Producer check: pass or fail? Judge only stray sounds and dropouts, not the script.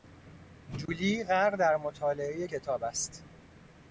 fail